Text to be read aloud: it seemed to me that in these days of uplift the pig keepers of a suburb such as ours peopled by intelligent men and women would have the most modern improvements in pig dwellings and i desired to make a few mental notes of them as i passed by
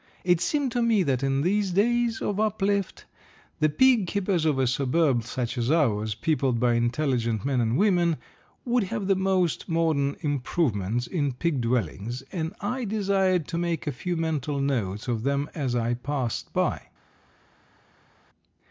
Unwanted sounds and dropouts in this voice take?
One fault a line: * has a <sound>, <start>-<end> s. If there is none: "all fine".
all fine